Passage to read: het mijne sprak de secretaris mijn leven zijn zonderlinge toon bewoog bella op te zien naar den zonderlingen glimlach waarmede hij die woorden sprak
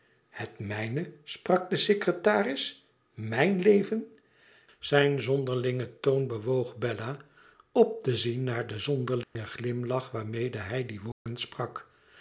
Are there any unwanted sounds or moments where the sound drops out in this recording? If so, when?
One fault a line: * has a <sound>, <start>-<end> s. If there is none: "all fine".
* has a dropout, 9.2-9.4 s
* has a dropout, 11.1-11.3 s